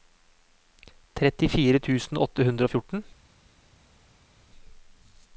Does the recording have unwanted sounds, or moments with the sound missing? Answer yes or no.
no